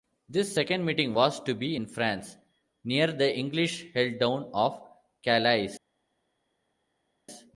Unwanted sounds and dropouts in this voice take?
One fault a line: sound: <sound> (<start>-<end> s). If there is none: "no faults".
no faults